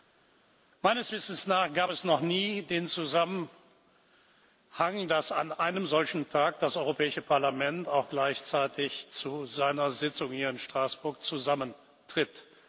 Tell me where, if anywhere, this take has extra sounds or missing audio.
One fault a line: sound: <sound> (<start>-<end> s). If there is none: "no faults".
no faults